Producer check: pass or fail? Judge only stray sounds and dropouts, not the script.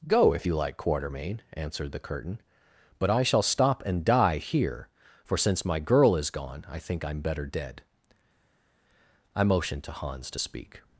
pass